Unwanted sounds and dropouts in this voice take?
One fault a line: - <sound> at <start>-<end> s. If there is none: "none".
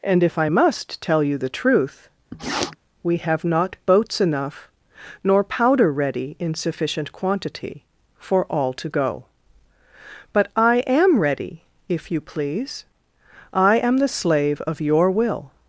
- sniff at 2.3-2.8 s